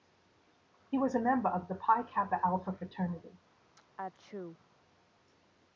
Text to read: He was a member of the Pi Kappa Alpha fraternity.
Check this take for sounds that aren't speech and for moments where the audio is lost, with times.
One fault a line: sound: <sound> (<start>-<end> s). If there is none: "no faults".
sound: sneeze (3.8-4.6 s)